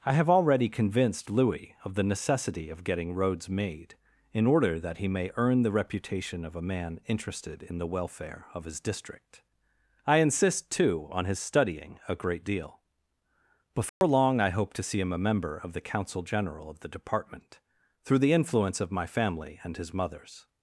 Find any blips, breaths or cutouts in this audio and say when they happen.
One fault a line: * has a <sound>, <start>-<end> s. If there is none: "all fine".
* has a dropout, 13.9-14.0 s